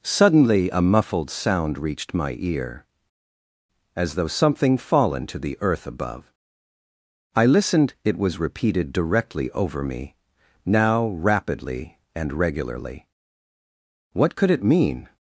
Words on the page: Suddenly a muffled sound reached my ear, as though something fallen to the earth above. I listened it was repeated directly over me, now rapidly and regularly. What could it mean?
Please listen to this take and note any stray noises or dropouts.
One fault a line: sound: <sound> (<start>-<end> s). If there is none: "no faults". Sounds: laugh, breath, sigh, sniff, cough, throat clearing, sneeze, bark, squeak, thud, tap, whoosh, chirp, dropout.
no faults